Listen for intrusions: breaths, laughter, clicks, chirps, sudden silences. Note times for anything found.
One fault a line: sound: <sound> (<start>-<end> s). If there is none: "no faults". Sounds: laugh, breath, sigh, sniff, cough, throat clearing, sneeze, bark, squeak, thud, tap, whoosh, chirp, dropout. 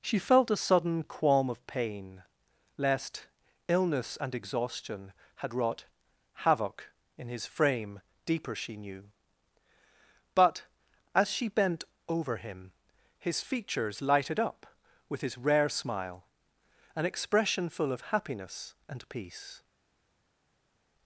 no faults